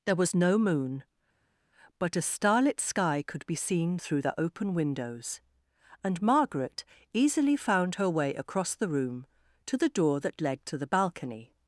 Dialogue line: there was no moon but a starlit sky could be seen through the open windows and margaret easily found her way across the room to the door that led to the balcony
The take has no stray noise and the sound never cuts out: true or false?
true